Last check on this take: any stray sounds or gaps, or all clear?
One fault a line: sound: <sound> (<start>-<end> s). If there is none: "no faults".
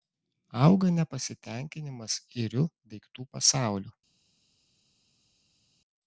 no faults